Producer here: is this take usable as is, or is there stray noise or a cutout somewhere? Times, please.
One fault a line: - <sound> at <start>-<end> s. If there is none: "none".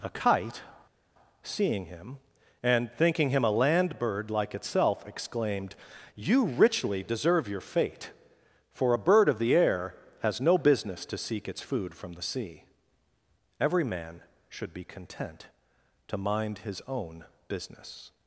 none